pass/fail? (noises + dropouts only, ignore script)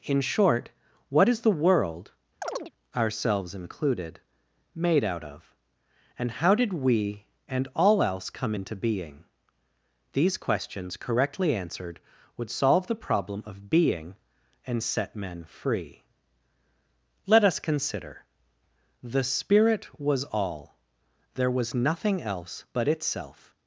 fail